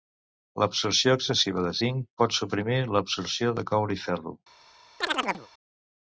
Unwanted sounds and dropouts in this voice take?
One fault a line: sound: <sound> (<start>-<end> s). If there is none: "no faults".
sound: chirp (5.0-5.5 s)